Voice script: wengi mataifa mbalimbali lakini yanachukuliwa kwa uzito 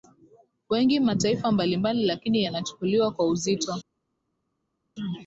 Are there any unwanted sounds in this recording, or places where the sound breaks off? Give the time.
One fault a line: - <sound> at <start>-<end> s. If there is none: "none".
none